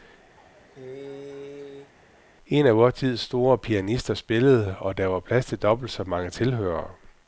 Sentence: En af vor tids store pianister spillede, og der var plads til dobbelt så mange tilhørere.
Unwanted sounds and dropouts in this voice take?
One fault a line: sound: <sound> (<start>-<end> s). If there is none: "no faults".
sound: cough (0.4-1.9 s)